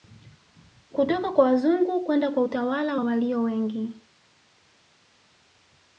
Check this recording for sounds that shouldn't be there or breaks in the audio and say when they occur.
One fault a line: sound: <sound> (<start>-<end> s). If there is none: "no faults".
no faults